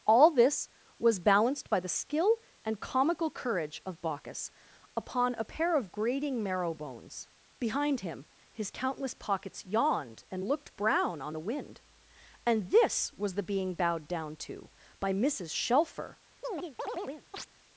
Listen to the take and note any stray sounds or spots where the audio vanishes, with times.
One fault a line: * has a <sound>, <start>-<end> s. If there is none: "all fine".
* has a chirp, 16.4-17.5 s